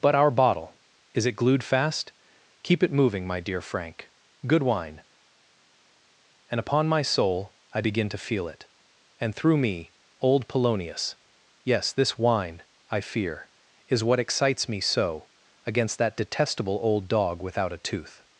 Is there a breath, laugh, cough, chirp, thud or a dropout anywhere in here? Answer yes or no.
no